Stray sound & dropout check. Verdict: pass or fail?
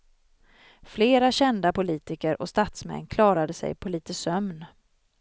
pass